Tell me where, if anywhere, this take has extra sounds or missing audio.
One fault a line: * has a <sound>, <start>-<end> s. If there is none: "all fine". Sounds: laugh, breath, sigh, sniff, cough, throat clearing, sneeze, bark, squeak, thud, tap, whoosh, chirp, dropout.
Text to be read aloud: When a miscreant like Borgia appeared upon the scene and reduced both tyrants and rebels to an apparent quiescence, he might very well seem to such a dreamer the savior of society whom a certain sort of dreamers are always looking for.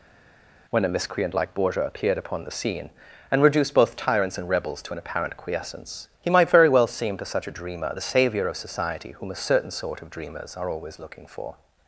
all fine